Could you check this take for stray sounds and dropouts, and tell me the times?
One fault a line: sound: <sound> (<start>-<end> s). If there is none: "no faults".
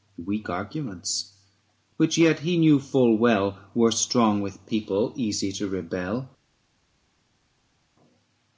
no faults